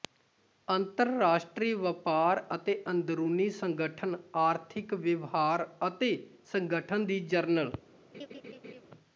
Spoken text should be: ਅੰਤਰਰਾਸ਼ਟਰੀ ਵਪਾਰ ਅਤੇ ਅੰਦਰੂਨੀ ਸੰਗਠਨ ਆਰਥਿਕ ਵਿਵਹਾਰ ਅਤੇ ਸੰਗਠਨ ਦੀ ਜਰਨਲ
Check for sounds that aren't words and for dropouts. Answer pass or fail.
fail